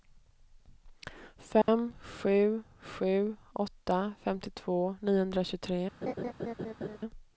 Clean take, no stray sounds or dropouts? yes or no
no